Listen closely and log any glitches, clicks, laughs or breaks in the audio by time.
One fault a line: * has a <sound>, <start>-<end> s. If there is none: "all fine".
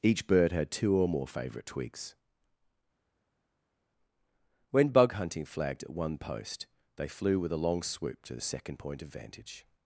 all fine